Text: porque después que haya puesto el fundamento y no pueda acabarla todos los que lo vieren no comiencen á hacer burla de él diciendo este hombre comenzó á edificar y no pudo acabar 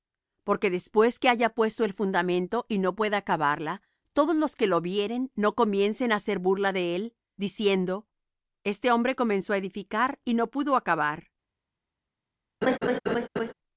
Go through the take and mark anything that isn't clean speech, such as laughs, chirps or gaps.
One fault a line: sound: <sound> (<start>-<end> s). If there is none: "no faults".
sound: laugh (12.6-13.5 s)